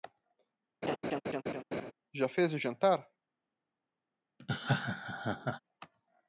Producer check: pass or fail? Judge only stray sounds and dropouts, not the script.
fail